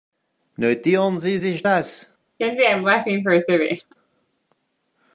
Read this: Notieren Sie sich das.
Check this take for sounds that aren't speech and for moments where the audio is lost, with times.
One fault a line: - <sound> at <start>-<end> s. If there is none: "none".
- laugh at 2.4-3.9 s